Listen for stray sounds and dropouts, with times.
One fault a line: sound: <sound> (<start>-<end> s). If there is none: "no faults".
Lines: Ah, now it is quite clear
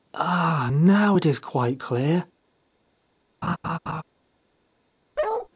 sound: laugh (3.4-4.0 s)
sound: bark (5.2-5.5 s)